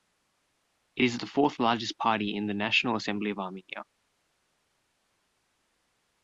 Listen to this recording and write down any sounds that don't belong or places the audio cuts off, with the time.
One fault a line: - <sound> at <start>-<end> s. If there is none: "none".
none